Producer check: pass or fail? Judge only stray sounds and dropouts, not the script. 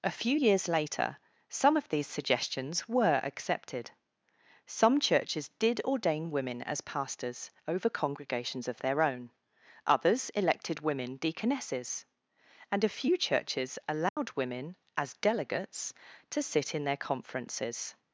fail